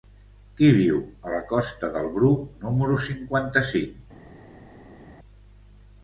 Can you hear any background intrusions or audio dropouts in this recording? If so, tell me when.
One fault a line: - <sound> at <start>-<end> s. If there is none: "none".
none